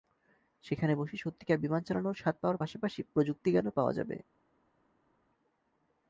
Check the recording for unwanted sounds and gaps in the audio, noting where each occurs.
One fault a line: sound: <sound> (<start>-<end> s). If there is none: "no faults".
no faults